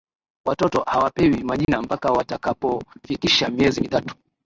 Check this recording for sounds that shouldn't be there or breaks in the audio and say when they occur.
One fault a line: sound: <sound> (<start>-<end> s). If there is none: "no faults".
sound: dropout (1.6-1.7 s)